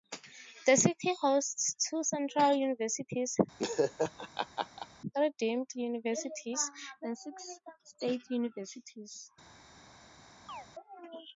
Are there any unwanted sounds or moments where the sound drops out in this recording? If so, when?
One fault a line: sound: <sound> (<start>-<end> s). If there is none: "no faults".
sound: laugh (3.6-4.9 s)
sound: chirp (10.5-10.7 s)